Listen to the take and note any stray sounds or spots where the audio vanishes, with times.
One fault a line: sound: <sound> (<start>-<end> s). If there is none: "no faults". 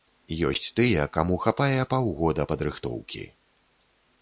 no faults